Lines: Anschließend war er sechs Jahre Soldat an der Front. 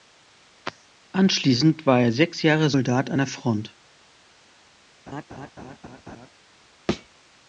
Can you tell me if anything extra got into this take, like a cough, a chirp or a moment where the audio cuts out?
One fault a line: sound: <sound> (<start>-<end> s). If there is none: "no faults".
sound: laugh (5.1-6.3 s)
sound: thud (6.9-7.1 s)